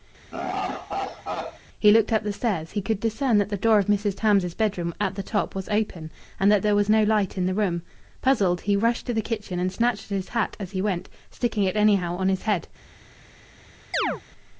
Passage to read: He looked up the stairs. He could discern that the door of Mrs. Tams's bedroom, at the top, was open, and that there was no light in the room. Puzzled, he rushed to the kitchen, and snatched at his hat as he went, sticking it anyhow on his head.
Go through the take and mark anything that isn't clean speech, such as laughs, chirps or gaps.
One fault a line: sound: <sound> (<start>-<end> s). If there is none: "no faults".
sound: laugh (0.3-1.6 s)
sound: chirp (13.9-14.2 s)